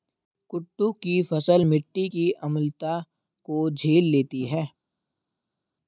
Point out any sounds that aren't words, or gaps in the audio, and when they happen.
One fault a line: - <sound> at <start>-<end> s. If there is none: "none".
none